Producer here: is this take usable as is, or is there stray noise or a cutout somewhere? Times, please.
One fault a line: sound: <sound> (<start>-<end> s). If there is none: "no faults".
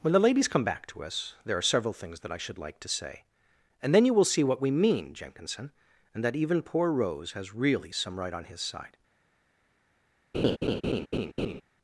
sound: laugh (10.3-11.6 s)